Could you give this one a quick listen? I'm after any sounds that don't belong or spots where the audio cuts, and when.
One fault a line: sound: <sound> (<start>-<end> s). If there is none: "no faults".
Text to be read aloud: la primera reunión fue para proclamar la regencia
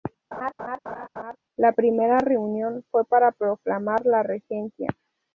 sound: laugh (0.3-1.4 s)